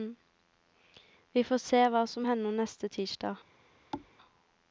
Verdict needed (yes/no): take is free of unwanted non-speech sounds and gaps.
no